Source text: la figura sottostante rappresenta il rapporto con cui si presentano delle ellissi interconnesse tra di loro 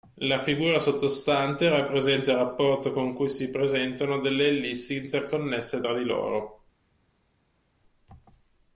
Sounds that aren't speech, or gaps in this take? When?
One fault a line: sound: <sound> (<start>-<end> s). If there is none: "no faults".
no faults